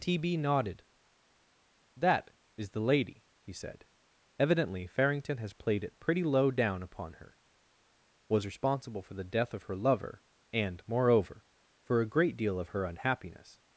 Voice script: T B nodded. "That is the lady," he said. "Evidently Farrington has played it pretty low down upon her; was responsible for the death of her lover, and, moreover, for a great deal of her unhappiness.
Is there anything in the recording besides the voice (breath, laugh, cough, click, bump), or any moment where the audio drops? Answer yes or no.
no